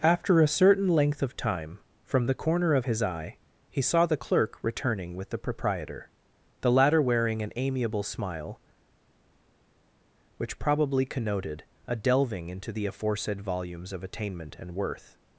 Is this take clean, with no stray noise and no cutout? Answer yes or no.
yes